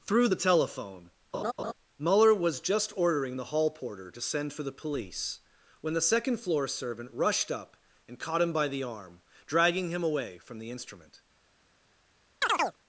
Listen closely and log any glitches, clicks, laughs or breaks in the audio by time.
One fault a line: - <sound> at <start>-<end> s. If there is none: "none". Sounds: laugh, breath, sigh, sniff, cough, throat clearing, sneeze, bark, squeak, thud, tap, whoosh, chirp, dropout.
- laugh at 1.3-1.7 s
- chirp at 12.4-12.8 s